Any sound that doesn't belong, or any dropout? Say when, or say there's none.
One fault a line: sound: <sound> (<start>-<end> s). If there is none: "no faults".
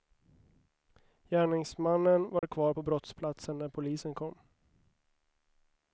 sound: dropout (2.4-2.4 s)